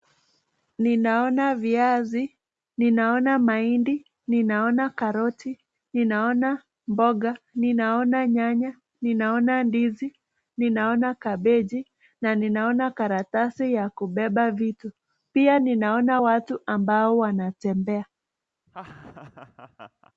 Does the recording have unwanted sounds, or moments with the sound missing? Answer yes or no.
yes